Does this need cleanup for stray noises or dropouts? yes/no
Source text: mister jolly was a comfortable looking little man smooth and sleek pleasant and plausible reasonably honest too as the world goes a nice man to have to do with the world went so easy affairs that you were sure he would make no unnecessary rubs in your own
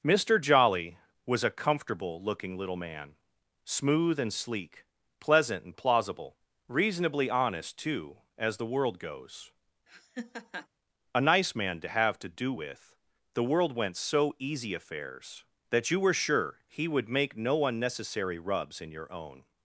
yes